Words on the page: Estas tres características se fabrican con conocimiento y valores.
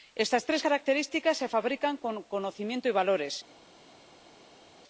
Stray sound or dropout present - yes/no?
no